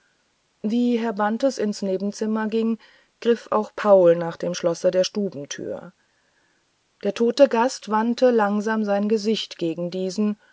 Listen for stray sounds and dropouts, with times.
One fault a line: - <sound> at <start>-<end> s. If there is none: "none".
none